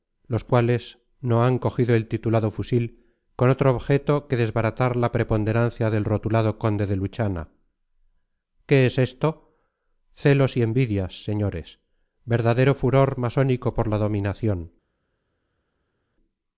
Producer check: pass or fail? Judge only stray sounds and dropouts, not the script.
pass